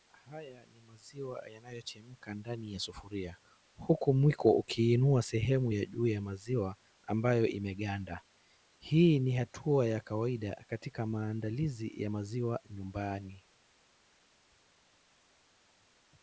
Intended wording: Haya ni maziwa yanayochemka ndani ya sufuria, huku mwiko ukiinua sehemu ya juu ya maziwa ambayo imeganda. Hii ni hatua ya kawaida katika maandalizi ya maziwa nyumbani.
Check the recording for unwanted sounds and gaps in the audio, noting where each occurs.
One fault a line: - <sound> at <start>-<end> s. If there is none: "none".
none